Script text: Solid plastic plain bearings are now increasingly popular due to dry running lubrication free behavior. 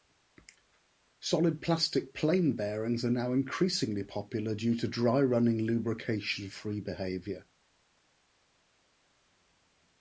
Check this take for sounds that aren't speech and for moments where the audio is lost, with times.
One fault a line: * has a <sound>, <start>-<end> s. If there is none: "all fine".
all fine